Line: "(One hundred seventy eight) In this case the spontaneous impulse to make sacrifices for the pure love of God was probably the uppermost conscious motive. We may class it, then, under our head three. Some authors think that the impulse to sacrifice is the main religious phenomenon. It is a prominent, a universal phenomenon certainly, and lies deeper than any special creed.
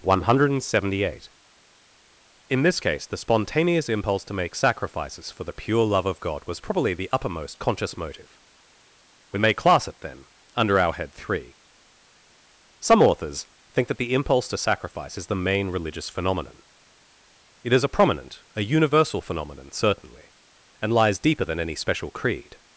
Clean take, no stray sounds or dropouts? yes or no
yes